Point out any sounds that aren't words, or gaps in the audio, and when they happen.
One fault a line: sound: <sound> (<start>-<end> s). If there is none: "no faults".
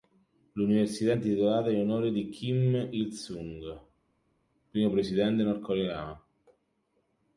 no faults